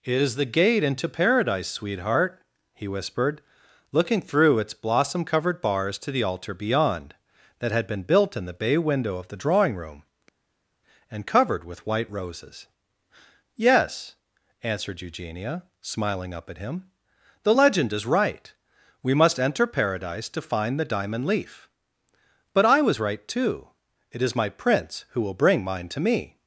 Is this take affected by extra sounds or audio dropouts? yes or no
no